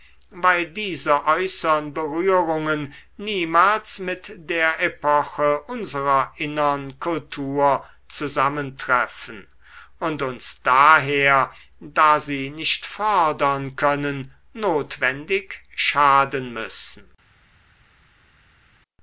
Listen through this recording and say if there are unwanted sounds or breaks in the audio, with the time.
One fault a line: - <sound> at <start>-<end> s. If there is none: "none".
none